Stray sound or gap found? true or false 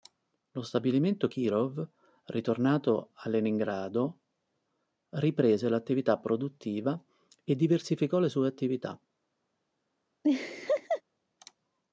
true